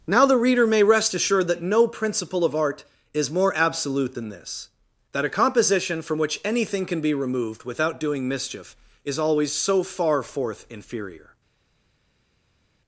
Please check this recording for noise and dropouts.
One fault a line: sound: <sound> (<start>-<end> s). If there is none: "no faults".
no faults